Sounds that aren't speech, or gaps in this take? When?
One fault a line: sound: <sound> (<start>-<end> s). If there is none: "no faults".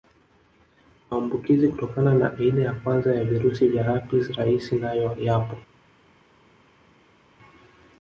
no faults